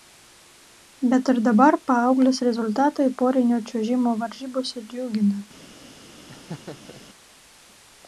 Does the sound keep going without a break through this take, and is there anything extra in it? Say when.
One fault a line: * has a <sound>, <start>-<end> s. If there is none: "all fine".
* has a laugh, 6.3-7.0 s